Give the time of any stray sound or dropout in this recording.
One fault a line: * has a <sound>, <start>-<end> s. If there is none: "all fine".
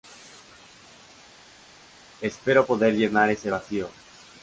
all fine